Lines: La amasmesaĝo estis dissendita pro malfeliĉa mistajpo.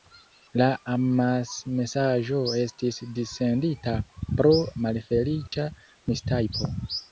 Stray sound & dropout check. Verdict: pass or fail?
fail